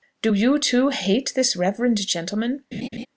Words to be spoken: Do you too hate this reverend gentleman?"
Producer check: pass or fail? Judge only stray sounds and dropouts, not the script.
fail